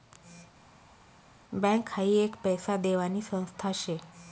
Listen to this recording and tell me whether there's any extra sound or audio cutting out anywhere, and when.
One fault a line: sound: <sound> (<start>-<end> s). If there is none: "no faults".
no faults